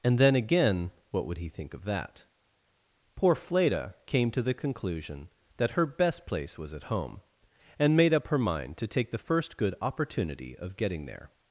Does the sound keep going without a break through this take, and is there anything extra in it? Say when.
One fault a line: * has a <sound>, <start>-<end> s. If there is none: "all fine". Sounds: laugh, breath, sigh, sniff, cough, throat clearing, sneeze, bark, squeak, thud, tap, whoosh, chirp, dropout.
all fine